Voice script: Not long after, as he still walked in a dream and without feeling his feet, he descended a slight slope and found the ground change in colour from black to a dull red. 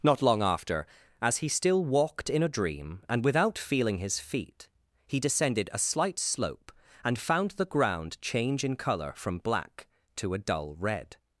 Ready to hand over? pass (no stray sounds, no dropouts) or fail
pass